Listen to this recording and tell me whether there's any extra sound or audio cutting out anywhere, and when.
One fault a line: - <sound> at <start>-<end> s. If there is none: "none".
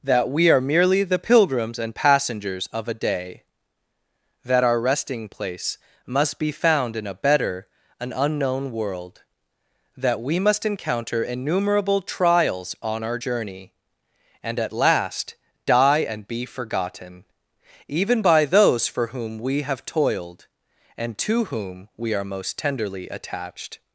none